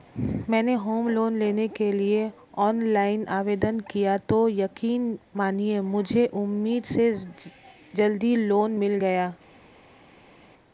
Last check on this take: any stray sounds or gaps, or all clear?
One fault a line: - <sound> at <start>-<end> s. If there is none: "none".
none